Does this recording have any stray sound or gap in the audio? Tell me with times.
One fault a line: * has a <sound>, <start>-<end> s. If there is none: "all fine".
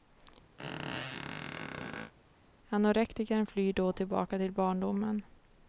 * has a squeak, 0.6-2.1 s